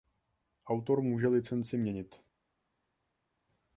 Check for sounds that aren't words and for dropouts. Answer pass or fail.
pass